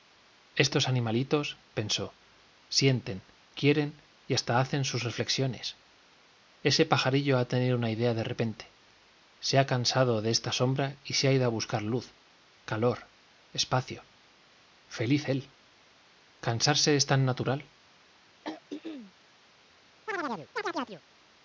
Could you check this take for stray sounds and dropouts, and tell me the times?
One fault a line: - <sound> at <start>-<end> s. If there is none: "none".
- throat clearing at 18.4-19.1 s
- chirp at 20.1-21.0 s